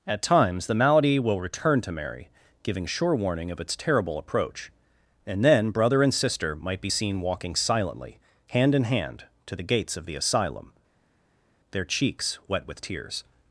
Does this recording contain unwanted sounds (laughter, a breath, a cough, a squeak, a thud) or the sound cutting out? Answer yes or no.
no